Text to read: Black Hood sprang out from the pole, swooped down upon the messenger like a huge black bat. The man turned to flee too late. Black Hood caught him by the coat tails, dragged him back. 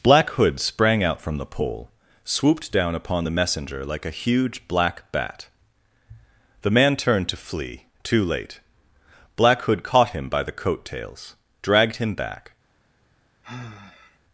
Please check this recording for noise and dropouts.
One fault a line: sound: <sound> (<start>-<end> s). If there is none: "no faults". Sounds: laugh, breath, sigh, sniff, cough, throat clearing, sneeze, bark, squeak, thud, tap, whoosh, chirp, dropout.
sound: sigh (13.4-14.2 s)